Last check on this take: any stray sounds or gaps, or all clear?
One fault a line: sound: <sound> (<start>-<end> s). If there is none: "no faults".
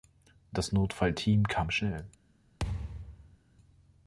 sound: thud (2.6-3.4 s)